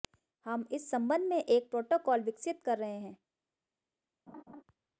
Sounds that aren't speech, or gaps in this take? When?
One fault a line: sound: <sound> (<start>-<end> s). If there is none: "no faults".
sound: laugh (4.3-4.6 s)